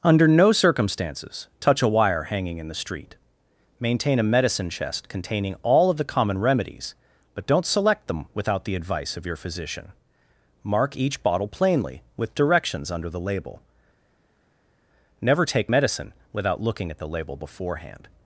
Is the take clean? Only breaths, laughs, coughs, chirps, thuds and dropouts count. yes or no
yes